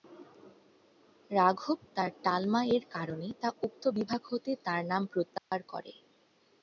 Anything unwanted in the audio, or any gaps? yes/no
yes